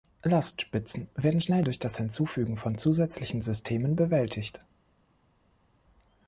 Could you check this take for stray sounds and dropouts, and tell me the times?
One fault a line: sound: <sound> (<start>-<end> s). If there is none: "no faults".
no faults